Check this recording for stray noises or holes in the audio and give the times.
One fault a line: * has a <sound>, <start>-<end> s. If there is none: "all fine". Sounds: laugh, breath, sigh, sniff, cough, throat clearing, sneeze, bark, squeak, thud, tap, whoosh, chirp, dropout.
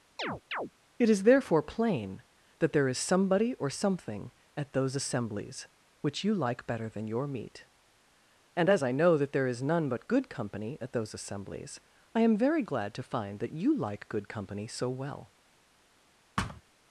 * has a chirp, 0.2-0.7 s
* has a thud, 16.4-16.6 s